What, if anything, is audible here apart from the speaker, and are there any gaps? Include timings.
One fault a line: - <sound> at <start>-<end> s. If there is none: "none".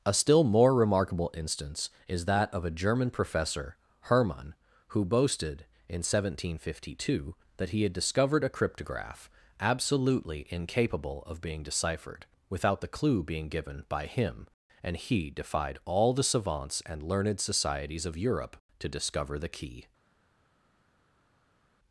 none